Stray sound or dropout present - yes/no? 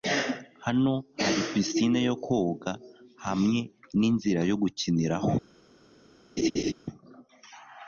yes